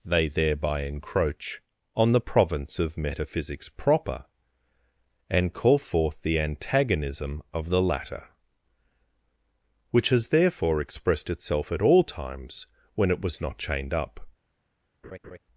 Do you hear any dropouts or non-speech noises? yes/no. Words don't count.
yes